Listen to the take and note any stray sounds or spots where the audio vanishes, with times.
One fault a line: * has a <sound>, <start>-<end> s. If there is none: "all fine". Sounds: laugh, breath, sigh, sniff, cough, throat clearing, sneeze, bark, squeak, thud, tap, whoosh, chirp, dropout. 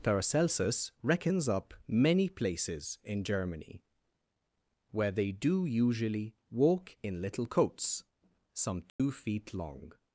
* has a dropout, 8.9-9.0 s